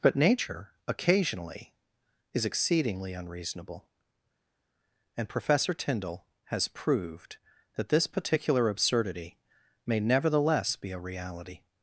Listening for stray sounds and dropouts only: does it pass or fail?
pass